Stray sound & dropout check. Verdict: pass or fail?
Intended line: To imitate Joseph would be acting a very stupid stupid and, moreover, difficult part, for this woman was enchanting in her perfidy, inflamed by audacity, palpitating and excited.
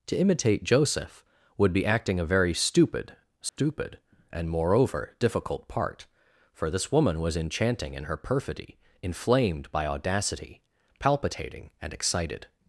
fail